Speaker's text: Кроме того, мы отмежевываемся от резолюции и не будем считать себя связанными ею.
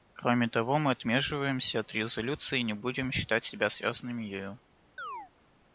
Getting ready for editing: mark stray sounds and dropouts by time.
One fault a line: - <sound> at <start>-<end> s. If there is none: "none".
- chirp at 5.0-5.3 s